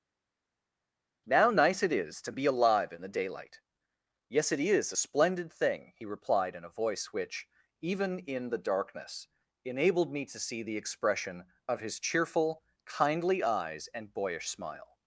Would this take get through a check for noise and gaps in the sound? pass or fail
pass